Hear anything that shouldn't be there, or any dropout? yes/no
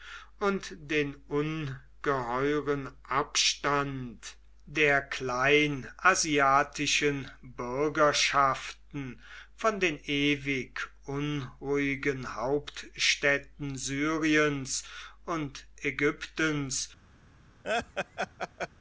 yes